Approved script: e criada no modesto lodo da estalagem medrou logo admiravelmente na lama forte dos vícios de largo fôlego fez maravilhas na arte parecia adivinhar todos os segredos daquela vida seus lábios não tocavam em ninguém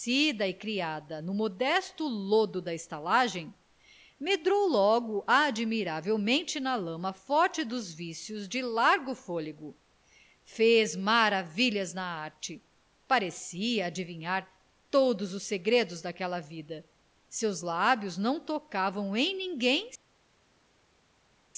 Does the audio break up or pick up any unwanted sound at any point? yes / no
no